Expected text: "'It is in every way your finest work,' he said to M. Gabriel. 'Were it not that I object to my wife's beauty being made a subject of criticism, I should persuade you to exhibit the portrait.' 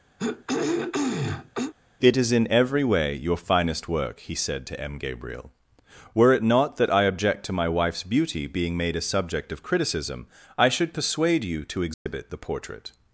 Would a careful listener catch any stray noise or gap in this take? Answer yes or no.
yes